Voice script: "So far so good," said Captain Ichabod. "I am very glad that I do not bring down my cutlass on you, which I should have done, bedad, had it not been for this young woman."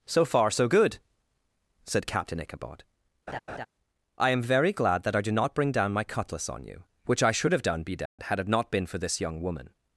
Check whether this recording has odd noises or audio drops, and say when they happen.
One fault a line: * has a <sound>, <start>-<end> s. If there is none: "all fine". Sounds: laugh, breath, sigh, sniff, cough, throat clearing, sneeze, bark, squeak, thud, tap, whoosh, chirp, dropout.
* has a laugh, 3.3-3.7 s
* has a dropout, 8.1-8.2 s